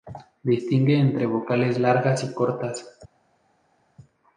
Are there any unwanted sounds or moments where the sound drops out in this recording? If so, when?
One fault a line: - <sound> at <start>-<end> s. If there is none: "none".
none